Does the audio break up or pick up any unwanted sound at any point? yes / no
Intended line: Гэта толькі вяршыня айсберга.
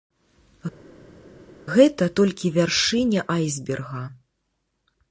no